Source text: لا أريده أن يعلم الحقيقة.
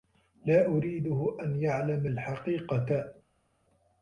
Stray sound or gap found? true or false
false